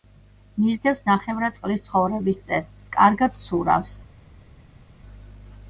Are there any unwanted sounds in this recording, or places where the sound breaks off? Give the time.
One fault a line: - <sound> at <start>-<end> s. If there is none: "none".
none